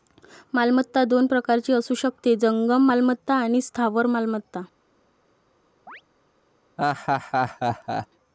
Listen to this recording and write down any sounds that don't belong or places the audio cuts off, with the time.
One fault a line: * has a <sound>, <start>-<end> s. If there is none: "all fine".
* has a chirp, 5.9-6.0 s
* has a laugh, 6.8-8.1 s